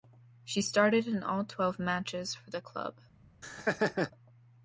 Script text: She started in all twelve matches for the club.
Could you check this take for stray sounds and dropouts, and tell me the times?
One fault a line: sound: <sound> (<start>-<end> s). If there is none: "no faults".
sound: laugh (3.4-4.1 s)